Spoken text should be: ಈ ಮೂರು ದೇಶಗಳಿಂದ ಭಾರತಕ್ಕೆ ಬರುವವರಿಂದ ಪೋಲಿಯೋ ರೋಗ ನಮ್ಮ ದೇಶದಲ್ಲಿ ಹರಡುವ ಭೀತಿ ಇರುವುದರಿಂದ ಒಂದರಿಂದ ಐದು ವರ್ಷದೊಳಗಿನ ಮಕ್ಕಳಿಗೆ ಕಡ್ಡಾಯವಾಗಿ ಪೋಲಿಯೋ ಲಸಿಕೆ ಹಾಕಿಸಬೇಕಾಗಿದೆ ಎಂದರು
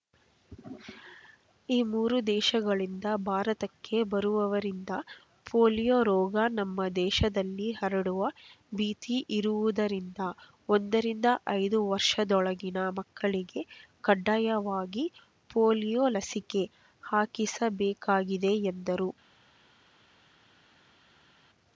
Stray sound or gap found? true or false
false